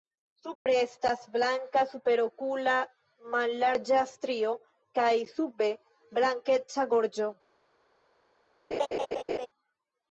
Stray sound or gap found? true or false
true